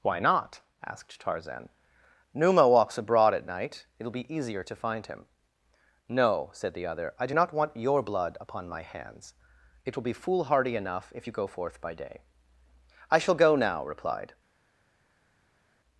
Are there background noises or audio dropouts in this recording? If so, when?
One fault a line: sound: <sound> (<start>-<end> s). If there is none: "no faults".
no faults